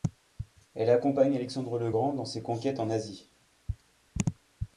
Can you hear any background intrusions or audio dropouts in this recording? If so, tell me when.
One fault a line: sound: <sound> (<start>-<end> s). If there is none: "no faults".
no faults